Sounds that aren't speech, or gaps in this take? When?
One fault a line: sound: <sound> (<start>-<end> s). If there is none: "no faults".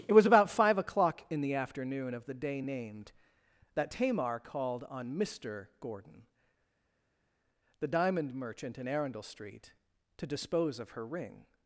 no faults